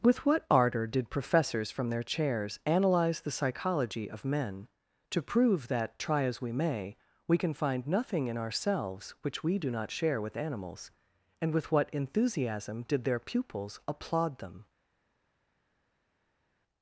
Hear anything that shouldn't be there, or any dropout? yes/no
no